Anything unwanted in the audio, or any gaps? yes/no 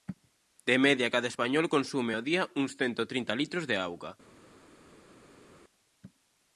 no